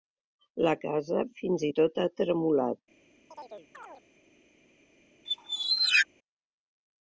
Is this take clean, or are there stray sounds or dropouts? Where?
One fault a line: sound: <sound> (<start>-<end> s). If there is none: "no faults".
sound: chirp (3.3-4.0 s)
sound: squeak (5.3-6.1 s)